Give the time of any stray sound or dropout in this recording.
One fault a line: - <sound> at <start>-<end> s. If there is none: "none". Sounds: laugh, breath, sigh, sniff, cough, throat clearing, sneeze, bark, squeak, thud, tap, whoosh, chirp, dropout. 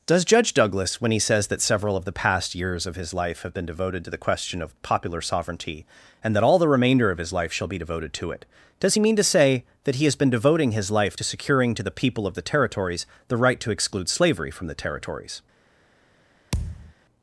- thud at 16.5-16.9 s